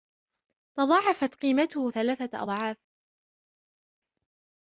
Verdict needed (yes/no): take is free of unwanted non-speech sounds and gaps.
yes